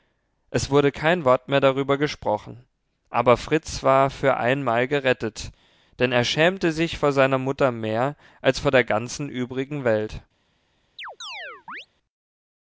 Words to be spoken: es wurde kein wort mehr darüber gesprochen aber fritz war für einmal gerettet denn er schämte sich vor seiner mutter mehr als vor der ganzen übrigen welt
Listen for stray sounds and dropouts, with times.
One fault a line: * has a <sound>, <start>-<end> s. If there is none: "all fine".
* has a chirp, 11.0-11.9 s